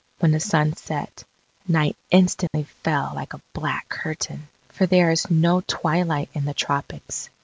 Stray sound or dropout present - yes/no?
yes